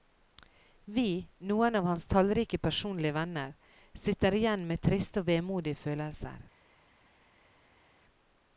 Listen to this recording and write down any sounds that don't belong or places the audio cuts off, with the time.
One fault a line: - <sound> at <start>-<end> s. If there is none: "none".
none